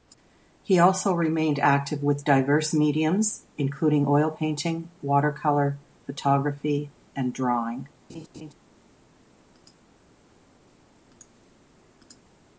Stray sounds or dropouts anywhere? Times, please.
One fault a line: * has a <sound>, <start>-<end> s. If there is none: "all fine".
* has a laugh, 8.1-8.5 s